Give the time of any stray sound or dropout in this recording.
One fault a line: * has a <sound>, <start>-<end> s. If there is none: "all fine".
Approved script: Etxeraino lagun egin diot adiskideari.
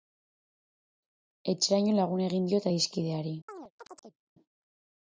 * has a chirp, 3.5-4.2 s